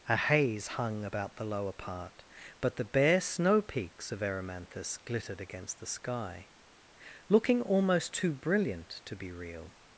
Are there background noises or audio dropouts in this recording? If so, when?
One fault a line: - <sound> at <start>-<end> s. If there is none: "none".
none